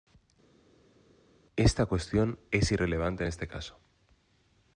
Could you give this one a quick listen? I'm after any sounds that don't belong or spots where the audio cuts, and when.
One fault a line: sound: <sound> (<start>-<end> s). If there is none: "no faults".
no faults